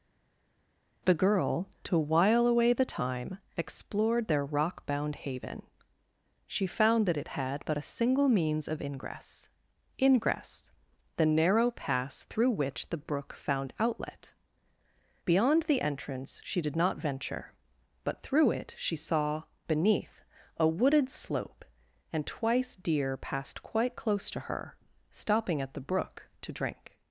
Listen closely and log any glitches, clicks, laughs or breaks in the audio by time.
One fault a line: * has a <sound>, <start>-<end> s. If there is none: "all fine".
all fine